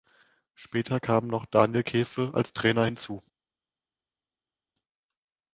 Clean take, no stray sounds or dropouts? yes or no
yes